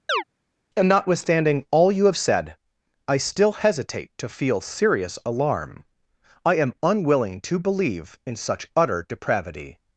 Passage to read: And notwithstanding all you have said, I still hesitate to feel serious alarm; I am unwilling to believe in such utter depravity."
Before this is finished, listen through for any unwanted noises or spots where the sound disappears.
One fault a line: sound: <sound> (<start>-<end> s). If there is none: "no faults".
sound: chirp (0.1-0.2 s)